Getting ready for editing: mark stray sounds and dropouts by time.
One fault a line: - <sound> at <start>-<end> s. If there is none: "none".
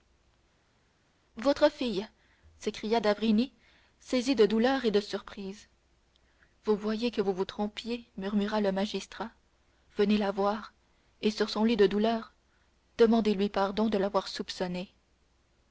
none